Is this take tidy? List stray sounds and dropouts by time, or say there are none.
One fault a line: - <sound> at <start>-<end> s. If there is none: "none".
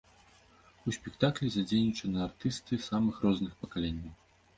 none